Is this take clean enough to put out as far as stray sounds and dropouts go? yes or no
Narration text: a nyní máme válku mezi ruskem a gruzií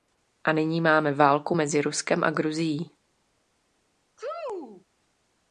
no